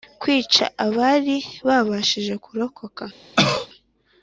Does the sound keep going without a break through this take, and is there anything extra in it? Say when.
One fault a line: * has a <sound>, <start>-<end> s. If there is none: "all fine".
* has a cough, 3.4-3.7 s